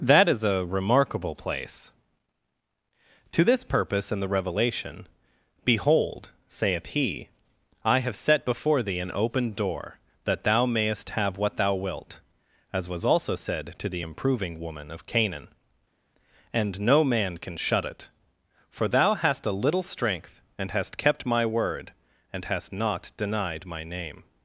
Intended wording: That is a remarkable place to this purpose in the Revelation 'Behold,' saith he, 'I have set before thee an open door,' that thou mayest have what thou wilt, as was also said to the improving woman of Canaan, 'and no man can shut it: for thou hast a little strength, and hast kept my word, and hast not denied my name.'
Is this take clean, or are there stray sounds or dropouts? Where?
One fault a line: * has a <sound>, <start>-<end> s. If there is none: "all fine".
all fine